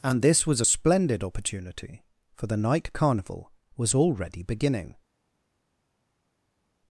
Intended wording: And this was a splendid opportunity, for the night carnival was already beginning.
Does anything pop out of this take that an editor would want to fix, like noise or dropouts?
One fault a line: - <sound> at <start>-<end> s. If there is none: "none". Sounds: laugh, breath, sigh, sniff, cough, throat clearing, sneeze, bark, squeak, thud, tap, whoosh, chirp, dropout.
none